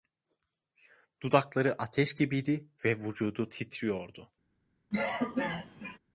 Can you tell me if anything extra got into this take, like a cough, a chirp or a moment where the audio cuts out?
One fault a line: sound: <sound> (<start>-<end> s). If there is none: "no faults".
sound: cough (4.9-6.0 s)